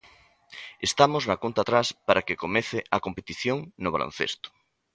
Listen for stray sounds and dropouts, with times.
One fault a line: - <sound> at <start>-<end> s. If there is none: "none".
none